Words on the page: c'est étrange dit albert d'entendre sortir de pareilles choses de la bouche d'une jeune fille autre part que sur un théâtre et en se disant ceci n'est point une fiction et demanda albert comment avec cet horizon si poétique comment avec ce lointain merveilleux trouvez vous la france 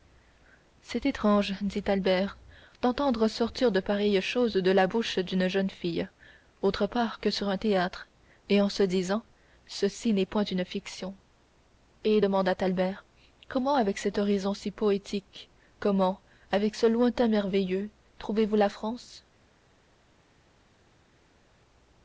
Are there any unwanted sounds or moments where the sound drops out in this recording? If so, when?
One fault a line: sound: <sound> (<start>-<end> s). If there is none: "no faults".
no faults